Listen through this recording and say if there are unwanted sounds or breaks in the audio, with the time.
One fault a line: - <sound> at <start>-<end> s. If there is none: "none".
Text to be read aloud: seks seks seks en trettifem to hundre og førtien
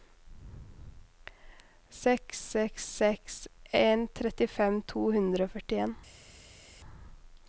none